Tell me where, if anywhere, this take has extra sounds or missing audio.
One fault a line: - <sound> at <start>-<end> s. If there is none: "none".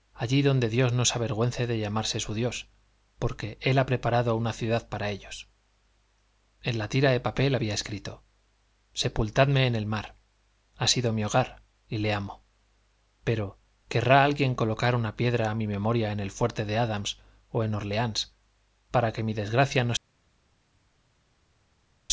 none